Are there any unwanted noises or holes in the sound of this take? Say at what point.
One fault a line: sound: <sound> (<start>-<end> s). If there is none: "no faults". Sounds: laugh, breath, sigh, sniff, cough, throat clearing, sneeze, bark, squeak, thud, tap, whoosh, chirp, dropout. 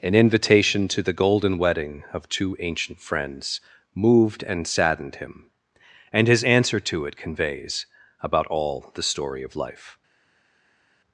no faults